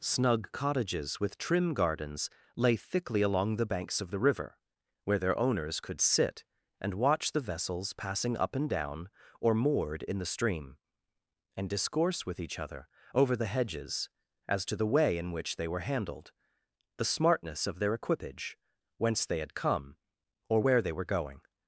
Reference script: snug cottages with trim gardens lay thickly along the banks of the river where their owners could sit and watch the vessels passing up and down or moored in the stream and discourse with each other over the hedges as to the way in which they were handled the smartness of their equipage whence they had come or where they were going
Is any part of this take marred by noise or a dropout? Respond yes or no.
no